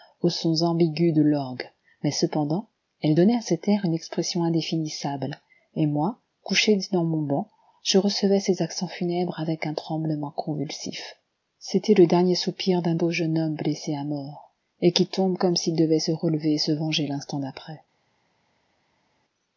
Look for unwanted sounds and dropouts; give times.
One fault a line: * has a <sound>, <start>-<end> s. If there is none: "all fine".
all fine